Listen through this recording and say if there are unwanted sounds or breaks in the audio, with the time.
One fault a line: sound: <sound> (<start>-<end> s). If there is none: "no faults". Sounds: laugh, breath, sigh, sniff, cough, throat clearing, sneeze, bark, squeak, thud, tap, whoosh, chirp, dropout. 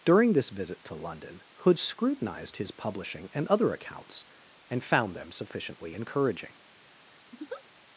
sound: laugh (7.3-7.6 s)